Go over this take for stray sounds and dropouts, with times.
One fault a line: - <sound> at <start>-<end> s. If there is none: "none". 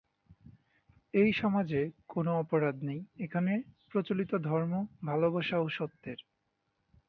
none